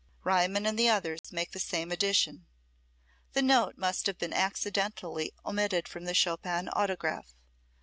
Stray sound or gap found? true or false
true